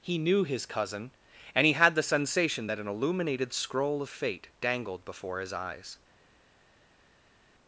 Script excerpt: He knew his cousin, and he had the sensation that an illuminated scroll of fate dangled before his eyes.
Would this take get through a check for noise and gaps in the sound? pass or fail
pass